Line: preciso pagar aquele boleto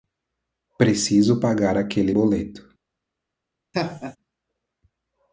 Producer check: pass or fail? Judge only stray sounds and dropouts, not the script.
fail